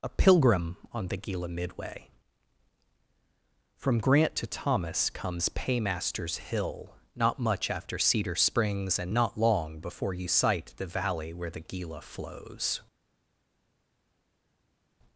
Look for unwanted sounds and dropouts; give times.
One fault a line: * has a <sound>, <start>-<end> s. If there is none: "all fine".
all fine